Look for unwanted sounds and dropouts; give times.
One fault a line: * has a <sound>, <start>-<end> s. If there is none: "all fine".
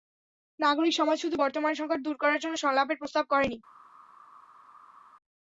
all fine